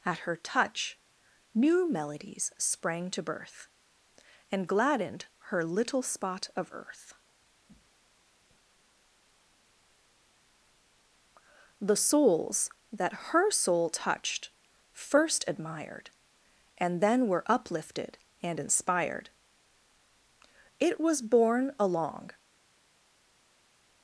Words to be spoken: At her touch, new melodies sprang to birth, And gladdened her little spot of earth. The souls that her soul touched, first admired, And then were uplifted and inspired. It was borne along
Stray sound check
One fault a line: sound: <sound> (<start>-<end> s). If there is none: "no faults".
no faults